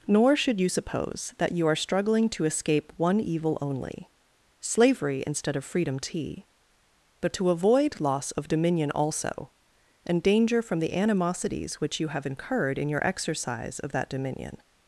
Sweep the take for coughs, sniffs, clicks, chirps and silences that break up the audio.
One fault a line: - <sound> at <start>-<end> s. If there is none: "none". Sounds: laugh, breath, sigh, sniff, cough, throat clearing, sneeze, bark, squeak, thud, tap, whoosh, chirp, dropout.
none